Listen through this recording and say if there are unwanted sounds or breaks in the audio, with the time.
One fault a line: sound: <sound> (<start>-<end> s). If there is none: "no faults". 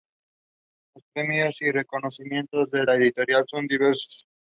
no faults